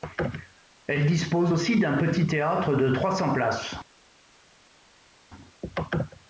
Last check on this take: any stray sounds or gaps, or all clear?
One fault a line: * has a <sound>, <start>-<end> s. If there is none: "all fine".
all fine